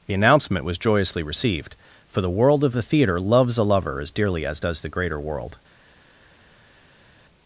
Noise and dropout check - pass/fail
pass